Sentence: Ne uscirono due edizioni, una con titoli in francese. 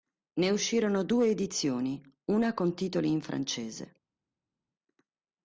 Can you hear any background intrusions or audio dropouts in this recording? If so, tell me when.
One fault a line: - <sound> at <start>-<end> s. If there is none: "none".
none